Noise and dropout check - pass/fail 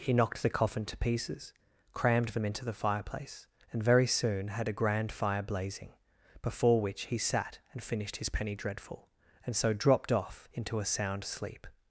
pass